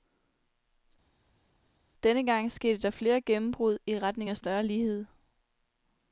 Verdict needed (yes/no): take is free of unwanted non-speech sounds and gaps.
yes